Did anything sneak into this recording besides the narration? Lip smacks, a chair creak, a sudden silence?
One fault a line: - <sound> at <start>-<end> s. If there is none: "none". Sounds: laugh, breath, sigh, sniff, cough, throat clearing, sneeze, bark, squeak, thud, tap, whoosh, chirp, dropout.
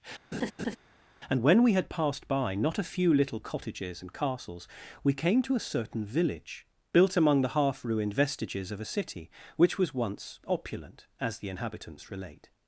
- laugh at 0.3-0.8 s